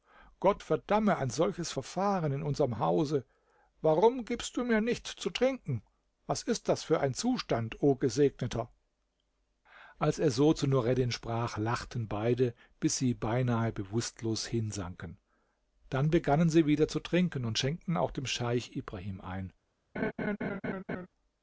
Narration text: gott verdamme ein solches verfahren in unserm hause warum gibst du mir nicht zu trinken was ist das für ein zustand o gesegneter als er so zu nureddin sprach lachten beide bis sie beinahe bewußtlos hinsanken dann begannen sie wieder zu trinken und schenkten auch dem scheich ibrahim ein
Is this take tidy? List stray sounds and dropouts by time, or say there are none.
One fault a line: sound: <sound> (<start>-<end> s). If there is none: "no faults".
sound: laugh (20.0-21.1 s)